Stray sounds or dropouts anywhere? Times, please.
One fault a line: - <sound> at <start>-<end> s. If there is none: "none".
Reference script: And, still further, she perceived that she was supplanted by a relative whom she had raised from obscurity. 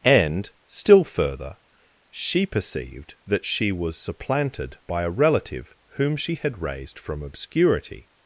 none